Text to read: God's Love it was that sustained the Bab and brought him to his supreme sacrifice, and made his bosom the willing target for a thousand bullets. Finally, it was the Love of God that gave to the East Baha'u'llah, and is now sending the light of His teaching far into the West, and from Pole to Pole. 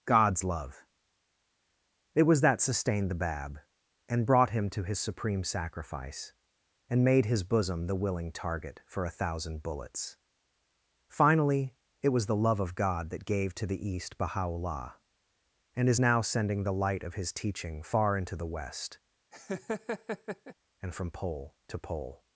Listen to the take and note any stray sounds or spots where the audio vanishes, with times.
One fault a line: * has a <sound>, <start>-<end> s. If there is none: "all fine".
* has a laugh, 19.3-20.5 s